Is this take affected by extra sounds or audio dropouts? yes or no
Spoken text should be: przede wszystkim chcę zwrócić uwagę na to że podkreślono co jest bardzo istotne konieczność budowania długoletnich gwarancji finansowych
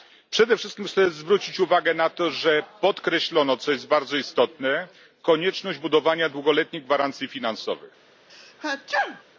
yes